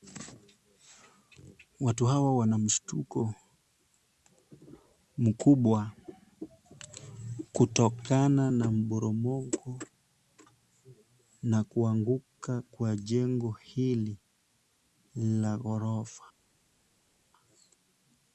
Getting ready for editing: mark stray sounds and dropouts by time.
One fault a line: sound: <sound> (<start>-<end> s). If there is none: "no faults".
no faults